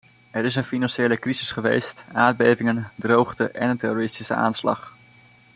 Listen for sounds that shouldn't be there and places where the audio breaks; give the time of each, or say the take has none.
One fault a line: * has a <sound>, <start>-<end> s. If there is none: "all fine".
all fine